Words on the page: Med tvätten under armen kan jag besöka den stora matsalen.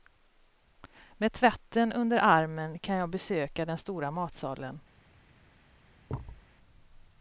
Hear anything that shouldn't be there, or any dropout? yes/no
yes